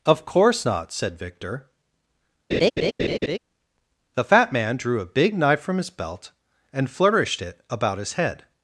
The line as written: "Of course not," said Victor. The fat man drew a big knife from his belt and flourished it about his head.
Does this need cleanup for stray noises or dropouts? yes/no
yes